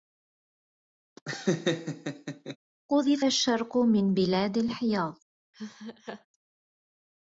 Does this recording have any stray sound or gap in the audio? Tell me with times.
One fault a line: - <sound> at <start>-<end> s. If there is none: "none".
- laugh at 1.2-2.6 s
- laugh at 5.5-6.3 s